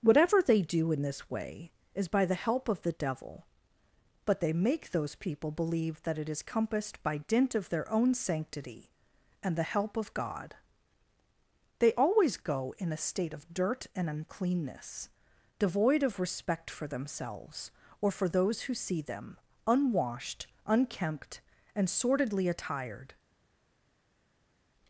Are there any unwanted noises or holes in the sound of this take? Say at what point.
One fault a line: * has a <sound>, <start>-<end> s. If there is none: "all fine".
all fine